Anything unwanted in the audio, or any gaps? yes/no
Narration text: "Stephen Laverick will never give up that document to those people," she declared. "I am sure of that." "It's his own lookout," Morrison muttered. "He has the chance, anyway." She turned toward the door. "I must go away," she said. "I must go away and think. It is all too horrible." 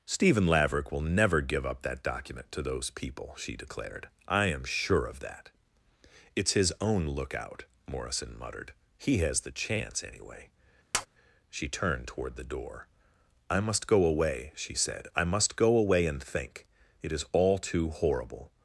yes